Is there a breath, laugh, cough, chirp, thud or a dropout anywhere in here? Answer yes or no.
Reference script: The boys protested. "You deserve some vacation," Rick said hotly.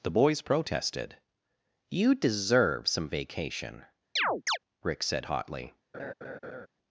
yes